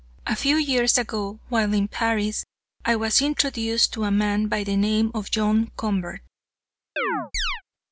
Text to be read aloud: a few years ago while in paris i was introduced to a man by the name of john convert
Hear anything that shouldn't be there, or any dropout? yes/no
yes